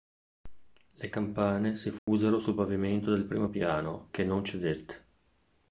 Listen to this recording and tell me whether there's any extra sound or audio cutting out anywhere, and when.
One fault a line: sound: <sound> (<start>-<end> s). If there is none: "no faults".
sound: dropout (2.0-2.1 s)